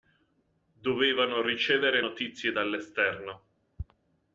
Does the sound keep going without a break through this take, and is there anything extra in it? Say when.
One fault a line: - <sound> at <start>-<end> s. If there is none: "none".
none